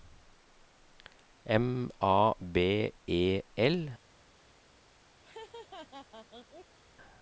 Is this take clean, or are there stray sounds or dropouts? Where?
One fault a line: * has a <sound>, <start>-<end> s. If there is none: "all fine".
* has a laugh, 5.2-6.8 s